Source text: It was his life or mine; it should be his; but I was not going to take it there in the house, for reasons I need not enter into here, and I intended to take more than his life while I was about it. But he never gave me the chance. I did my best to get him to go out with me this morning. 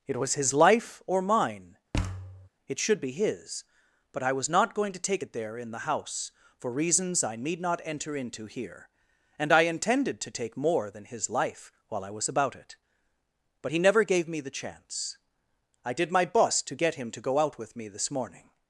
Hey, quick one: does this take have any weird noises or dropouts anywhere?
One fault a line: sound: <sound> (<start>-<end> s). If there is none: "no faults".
sound: thud (1.9-2.5 s)